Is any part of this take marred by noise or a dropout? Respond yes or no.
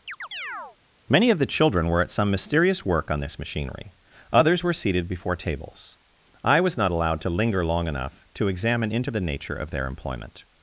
yes